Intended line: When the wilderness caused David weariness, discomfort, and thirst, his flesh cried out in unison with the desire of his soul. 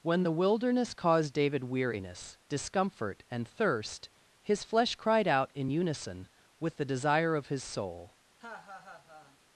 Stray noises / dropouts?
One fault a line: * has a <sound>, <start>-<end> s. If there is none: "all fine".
* has a laugh, 8.4-9.4 s